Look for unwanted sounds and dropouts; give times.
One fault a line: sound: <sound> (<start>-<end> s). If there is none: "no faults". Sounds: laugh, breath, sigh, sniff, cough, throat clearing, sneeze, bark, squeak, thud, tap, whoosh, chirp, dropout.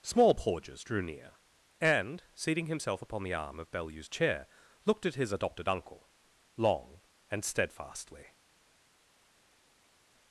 no faults